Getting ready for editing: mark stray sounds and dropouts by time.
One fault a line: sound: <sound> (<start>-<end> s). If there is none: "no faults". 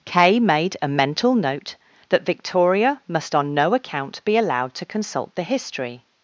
no faults